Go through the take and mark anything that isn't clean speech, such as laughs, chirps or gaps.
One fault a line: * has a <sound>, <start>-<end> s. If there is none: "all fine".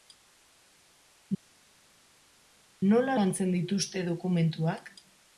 all fine